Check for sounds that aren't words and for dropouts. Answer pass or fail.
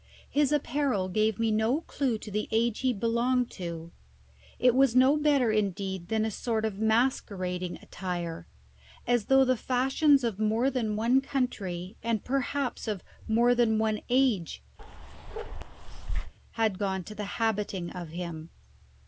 fail